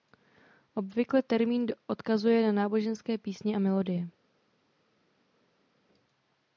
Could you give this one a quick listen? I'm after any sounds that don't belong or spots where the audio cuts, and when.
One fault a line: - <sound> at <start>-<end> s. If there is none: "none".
none